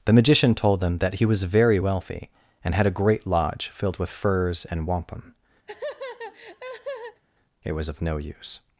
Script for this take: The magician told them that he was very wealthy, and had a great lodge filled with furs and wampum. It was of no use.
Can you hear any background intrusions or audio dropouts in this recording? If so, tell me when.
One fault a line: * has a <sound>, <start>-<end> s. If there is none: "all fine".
* has a laugh, 5.7-7.2 s